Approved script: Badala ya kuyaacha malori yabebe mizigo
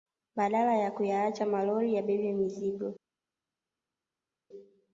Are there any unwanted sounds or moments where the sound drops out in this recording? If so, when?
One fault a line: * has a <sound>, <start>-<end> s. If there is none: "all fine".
all fine